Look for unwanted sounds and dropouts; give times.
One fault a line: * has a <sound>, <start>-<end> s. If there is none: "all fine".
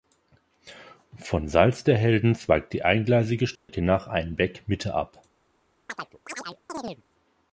* has a dropout, 3.6-3.7 s
* has a chirp, 5.9-7.0 s